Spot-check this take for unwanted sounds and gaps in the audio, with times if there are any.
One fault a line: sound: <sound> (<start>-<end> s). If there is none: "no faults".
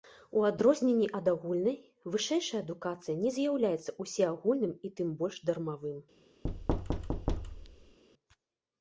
sound: thud (6.4-8.0 s)